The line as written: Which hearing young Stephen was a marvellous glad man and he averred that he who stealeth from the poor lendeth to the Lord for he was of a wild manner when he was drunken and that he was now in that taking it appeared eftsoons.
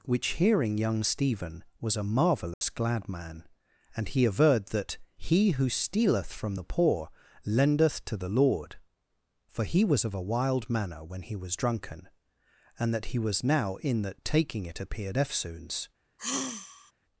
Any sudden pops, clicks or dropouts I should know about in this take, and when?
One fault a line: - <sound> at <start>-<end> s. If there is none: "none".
- dropout at 2.5-2.6 s
- sigh at 16.2-16.9 s